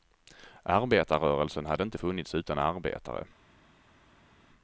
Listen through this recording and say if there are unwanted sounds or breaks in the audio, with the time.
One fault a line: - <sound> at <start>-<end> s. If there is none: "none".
none